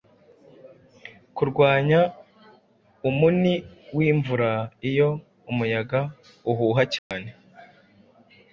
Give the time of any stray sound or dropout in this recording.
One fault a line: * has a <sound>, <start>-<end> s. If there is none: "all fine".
* has a dropout, 7.0-7.1 s